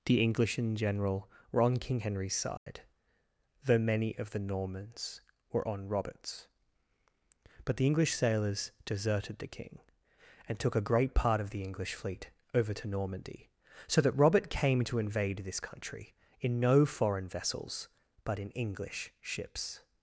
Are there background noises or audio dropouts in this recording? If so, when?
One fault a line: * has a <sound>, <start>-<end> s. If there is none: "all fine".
* has a dropout, 2.6-2.7 s